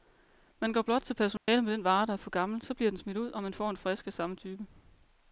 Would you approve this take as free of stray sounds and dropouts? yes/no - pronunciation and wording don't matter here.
no